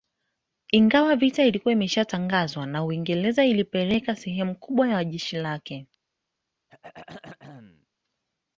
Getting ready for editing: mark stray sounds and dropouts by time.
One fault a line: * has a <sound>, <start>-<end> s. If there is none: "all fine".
* has a throat clearing, 6.7-7.9 s